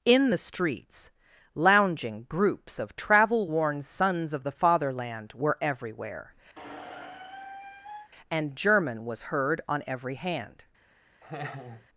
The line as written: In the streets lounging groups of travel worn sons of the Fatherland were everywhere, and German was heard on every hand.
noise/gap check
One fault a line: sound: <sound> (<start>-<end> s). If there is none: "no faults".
sound: squeak (6.6-8.1 s)
sound: laugh (11.2-11.9 s)